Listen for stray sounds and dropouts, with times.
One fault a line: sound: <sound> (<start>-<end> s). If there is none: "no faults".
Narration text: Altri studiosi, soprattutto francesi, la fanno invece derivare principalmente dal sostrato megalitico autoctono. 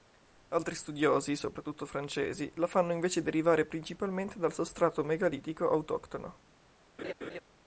sound: laugh (7.0-7.4 s)